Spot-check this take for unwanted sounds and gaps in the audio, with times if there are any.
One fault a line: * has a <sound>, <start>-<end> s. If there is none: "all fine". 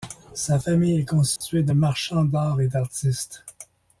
* has a dropout, 1.4-1.4 s